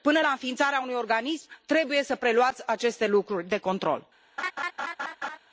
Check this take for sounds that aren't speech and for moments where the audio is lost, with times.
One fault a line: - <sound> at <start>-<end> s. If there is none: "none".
- laugh at 4.4-5.4 s